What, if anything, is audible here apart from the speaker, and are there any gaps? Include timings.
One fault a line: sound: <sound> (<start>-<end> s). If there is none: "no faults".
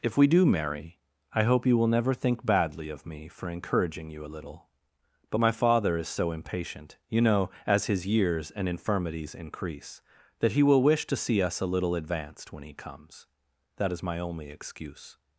no faults